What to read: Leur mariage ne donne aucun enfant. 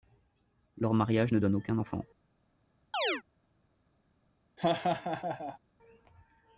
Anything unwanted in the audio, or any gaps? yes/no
yes